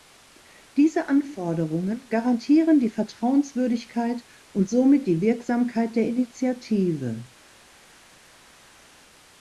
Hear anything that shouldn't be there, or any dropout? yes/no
no